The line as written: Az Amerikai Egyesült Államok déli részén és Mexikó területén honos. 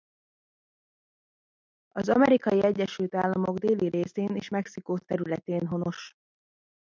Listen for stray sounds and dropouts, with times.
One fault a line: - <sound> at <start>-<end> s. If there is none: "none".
none